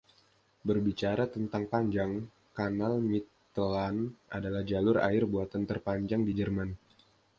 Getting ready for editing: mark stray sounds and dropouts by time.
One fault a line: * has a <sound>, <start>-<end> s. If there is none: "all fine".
all fine